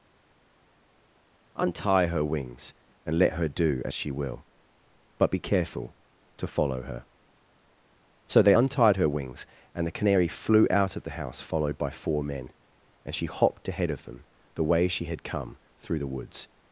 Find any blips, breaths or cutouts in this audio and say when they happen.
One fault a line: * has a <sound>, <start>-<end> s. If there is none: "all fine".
all fine